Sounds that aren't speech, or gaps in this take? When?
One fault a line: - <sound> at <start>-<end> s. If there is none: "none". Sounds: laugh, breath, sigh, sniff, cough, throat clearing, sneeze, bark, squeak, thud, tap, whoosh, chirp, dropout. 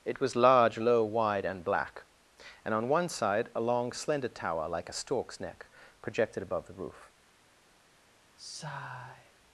- sigh at 8.4-9.3 s